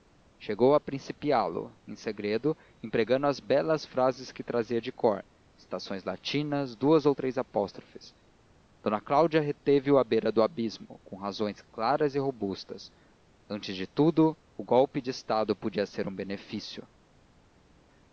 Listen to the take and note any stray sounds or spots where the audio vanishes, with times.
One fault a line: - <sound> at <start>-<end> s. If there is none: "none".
none